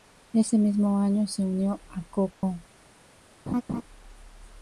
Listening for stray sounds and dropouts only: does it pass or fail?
fail